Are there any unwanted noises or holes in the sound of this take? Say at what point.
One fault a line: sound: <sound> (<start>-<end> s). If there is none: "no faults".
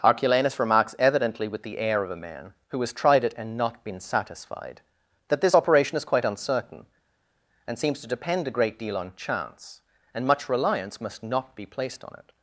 no faults